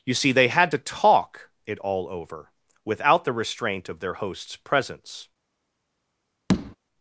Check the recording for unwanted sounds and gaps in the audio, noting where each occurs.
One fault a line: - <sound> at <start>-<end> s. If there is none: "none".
- tap at 6.5-6.8 s